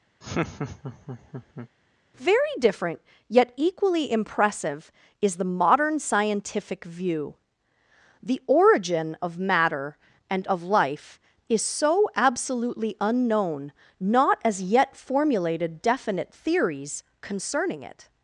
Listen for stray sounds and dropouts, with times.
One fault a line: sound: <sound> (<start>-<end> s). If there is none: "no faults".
sound: laugh (0.2-1.7 s)